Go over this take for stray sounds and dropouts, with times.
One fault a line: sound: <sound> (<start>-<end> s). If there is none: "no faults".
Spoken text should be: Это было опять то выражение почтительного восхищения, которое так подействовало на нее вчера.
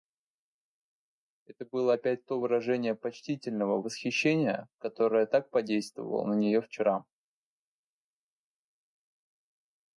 no faults